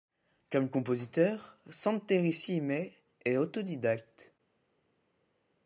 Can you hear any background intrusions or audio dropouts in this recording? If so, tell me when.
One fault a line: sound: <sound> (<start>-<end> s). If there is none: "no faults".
no faults